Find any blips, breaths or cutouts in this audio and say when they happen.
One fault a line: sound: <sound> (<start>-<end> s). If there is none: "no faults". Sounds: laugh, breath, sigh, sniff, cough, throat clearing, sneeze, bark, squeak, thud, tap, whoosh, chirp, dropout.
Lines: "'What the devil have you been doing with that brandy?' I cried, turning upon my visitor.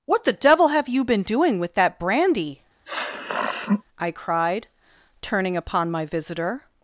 sound: sniff (2.8-3.8 s)